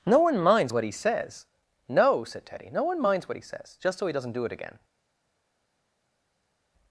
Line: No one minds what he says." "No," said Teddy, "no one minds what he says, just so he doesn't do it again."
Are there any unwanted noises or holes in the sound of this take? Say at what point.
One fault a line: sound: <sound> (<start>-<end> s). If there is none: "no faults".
no faults